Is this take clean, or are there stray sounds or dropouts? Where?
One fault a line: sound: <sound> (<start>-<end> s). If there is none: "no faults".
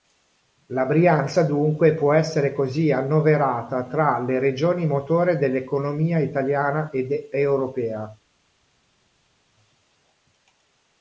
no faults